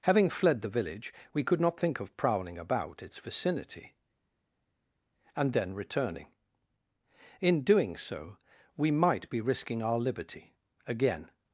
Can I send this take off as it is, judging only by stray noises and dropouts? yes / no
yes